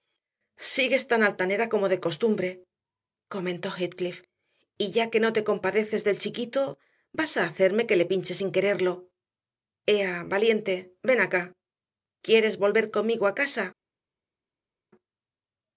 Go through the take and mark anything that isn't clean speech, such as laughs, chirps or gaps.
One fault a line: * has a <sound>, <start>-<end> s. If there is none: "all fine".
all fine